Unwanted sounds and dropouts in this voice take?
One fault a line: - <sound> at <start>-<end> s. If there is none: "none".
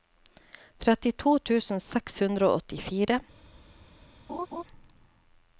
- laugh at 4.3-4.6 s